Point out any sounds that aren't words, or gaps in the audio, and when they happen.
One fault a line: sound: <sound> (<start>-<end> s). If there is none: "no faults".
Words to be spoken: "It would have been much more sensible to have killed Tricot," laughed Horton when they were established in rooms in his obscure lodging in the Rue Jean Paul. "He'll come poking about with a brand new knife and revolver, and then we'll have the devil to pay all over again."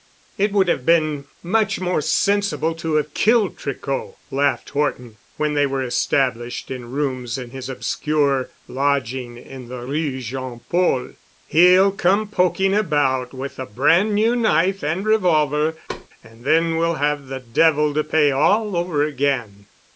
sound: thud (15.9-16.1 s)